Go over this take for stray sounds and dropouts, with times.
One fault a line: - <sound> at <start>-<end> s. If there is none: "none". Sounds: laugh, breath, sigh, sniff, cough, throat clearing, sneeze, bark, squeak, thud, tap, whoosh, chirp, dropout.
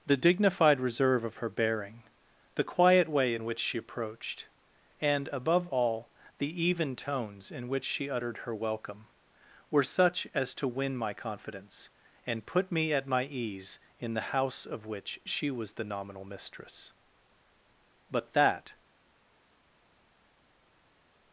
none